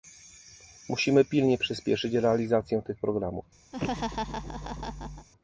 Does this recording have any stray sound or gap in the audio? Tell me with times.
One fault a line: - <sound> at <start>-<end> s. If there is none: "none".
- laugh at 3.7-5.3 s